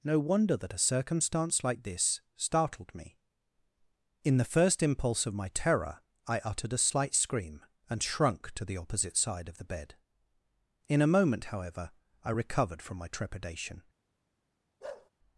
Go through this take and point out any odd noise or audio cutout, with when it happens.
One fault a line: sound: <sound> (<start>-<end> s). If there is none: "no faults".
sound: bark (14.8-15.1 s)